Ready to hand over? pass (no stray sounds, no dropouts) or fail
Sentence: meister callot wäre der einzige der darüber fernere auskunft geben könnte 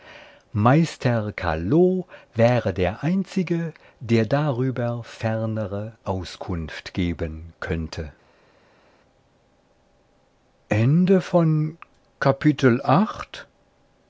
pass